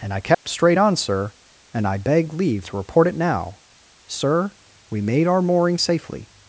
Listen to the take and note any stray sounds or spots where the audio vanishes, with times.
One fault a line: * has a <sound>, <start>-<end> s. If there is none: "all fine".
* has a dropout, 0.3-0.5 s